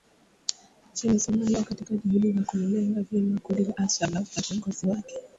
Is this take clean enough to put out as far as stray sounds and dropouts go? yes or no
yes